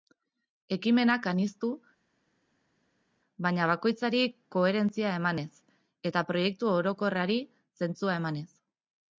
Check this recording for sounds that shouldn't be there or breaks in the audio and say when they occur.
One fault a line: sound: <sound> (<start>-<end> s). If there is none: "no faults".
no faults